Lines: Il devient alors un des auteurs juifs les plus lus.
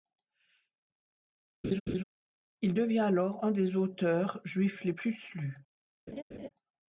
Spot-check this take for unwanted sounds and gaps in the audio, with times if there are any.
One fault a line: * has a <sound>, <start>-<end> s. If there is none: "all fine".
* has a laugh, 1.6-2.0 s
* has a laugh, 6.1-6.5 s